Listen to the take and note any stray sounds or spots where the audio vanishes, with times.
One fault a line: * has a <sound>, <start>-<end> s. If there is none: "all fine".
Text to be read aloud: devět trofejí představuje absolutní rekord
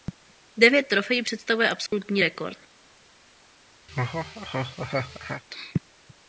* has a dropout, 1.9-1.9 s
* has a laugh, 3.9-5.4 s